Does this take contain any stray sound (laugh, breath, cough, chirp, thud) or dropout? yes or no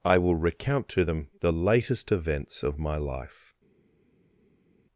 no